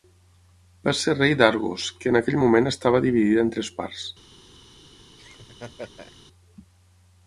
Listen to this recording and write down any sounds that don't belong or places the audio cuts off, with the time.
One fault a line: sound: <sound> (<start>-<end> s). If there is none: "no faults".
sound: laugh (5.2-6.2 s)